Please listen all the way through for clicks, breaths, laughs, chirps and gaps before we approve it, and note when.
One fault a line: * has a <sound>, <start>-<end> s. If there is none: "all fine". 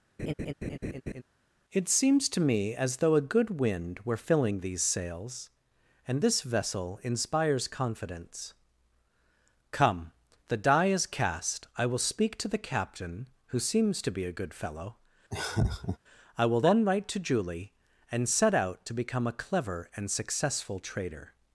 * has a laugh, 0.2-1.2 s
* has a laugh, 15.3-16.0 s